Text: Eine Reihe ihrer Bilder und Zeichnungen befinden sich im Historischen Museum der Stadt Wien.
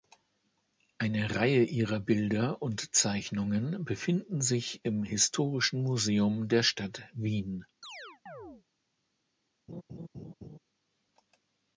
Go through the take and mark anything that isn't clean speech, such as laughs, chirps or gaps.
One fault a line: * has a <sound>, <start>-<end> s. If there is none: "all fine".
* has a chirp, 7.8-8.6 s
* has a laugh, 9.7-10.6 s